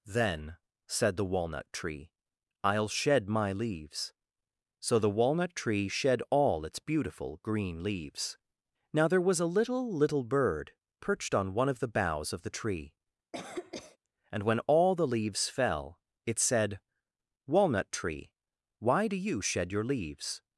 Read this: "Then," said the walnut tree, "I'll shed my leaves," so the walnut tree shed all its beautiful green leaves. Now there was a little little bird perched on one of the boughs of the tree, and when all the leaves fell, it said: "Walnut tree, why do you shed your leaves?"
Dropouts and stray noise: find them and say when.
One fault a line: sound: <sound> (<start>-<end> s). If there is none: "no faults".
sound: cough (13.3-14.0 s)